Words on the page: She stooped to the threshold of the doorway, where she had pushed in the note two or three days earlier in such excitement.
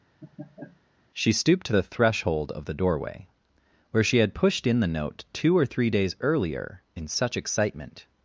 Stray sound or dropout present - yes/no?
yes